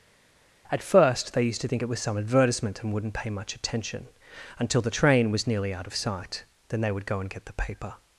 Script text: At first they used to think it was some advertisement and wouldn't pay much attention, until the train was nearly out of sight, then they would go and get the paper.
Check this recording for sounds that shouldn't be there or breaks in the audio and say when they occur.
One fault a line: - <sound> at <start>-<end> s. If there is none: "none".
none